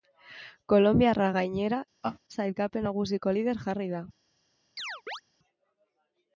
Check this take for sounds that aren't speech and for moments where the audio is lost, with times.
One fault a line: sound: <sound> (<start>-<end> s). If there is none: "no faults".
sound: laugh (2.0-2.2 s)
sound: chirp (4.8-5.2 s)